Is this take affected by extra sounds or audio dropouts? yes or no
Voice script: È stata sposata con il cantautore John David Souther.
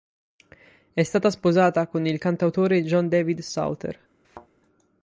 yes